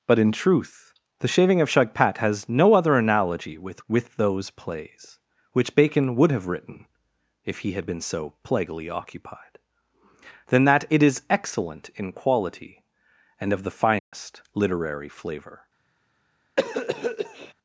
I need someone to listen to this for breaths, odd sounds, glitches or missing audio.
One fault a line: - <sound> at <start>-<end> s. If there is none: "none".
- dropout at 14.0-14.1 s
- cough at 16.6-17.5 s